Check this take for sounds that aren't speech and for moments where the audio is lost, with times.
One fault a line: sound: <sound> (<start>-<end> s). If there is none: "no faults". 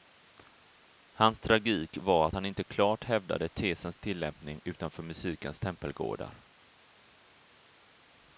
no faults